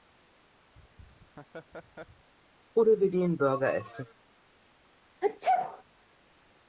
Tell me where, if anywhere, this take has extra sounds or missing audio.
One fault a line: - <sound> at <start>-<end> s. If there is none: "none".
- laugh at 0.7-2.3 s
- sneeze at 5.2-5.8 s